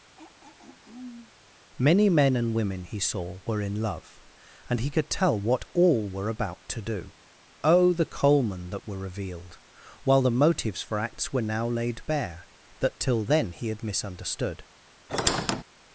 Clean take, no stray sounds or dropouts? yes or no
no